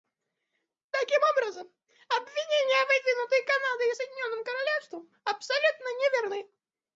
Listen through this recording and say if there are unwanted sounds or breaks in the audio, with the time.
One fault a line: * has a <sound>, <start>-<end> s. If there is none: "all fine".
all fine